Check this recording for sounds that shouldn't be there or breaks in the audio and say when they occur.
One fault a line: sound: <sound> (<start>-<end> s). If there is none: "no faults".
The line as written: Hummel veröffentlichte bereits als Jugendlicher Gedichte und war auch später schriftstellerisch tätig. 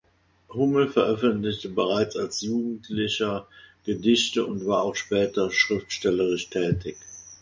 no faults